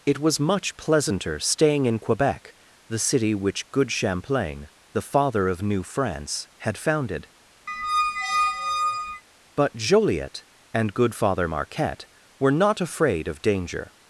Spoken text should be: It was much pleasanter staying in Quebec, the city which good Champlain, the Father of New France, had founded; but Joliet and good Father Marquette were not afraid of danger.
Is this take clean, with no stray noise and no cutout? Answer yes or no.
no